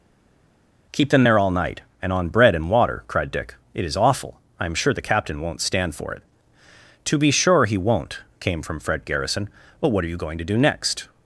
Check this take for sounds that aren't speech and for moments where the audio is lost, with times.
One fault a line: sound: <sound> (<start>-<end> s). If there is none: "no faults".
no faults